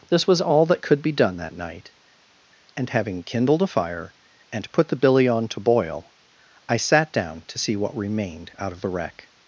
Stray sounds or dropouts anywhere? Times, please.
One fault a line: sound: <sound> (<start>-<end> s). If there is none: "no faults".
no faults